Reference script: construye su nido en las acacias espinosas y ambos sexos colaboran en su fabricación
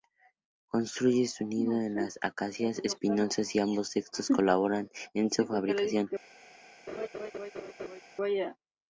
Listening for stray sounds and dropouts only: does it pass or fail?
fail